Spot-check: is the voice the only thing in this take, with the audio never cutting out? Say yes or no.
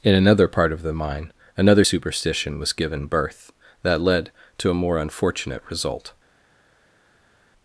yes